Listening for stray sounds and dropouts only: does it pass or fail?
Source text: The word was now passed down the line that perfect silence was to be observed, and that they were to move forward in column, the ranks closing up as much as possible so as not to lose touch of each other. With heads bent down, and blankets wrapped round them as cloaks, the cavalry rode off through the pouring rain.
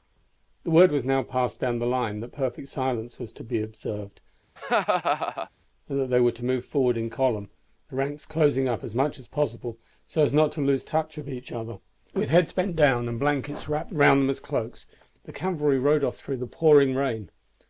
fail